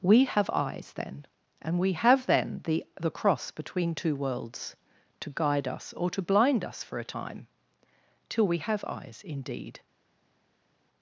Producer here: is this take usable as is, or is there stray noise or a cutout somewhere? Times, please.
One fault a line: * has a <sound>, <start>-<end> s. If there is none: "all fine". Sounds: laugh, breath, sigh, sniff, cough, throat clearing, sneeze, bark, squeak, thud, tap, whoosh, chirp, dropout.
all fine